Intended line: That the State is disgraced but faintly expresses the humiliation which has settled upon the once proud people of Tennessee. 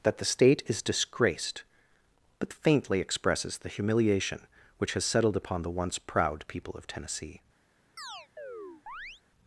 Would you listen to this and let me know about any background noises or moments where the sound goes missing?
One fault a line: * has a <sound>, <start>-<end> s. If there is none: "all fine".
* has a chirp, 8.0-9.2 s